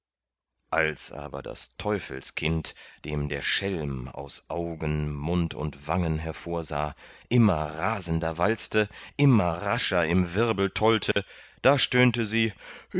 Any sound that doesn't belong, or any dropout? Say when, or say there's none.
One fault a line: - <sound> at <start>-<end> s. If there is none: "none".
- dropout at 11.1-11.2 s